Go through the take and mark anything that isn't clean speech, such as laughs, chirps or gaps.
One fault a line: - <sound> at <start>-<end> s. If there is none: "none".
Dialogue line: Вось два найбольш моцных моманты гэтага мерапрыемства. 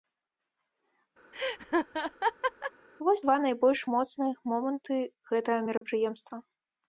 - laugh at 1.3-2.7 s
- dropout at 5.8-5.8 s